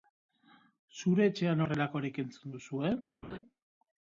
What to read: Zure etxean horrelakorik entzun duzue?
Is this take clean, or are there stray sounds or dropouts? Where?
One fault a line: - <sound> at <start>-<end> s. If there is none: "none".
- laugh at 3.2-3.4 s